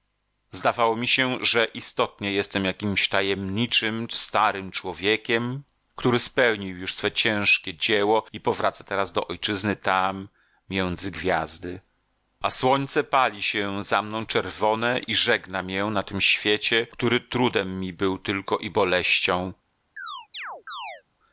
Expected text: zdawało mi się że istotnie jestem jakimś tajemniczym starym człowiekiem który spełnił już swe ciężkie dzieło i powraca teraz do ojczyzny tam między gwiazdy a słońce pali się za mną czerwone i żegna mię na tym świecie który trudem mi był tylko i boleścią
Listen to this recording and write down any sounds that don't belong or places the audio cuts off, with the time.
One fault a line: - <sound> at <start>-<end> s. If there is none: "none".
- chirp at 20.0-21.0 s